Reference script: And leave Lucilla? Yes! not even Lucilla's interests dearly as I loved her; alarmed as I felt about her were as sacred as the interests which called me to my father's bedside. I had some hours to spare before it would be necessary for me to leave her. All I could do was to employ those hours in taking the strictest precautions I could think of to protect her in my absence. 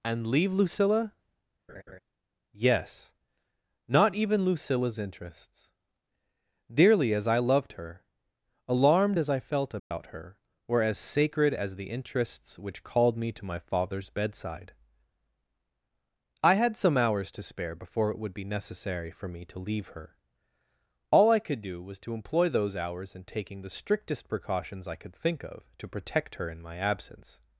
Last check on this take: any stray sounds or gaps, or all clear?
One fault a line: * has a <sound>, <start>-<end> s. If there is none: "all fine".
* has a laugh, 1.7-2.0 s
* has a dropout, 9.8-9.9 s